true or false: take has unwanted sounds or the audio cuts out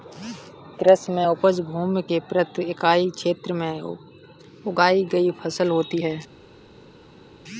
false